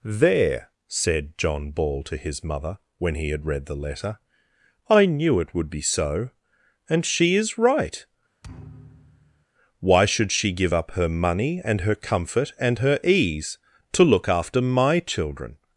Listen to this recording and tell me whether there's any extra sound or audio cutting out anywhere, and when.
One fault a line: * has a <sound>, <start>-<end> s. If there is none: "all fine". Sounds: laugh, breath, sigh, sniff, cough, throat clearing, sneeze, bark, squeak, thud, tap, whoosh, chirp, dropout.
* has a thud, 8.4-9.5 s